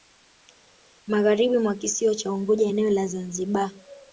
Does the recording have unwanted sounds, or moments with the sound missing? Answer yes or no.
no